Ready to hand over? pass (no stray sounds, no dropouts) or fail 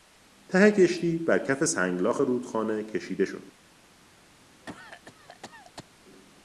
fail